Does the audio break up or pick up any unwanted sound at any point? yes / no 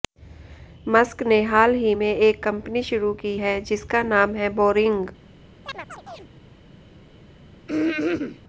yes